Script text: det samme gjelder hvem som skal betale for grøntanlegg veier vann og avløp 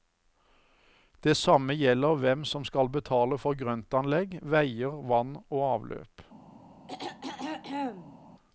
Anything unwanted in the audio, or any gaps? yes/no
yes